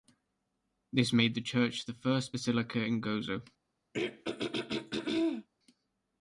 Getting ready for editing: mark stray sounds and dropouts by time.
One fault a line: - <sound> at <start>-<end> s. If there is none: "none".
- throat clearing at 3.9-5.5 s